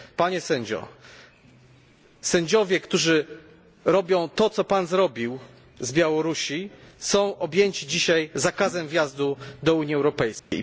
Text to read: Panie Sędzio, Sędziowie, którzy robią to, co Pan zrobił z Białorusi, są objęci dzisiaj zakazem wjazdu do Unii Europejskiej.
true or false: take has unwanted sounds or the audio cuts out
true